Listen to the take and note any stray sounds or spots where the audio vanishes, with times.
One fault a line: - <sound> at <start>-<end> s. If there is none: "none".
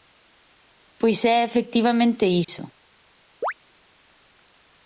- dropout at 2.4-2.5 s
- chirp at 3.4-3.5 s